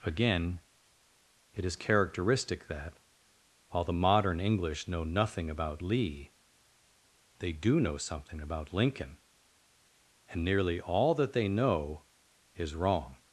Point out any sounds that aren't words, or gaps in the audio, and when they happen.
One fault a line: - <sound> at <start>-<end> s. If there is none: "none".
none